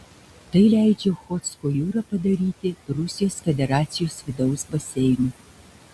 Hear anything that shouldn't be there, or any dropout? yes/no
no